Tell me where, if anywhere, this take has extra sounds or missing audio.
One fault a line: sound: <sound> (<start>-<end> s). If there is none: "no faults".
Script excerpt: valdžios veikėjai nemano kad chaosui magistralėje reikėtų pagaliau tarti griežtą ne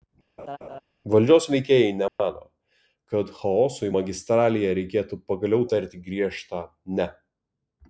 sound: laugh (0.4-0.8 s)
sound: dropout (2.1-2.2 s)